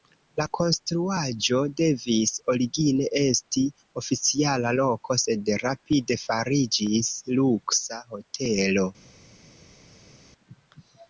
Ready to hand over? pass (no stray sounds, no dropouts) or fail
pass